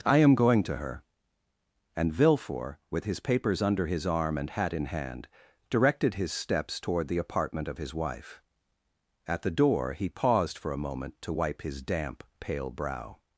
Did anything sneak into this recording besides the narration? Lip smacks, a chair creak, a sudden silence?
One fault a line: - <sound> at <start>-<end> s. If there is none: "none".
none